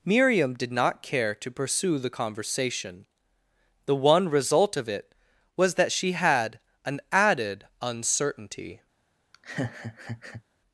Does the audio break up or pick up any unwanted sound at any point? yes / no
yes